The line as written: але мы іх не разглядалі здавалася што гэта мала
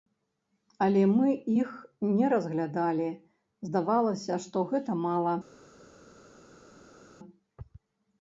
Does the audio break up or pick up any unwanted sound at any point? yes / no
no